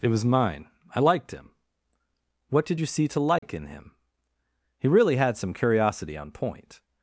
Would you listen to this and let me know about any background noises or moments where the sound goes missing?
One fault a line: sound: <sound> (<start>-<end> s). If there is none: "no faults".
sound: dropout (3.4-3.4 s)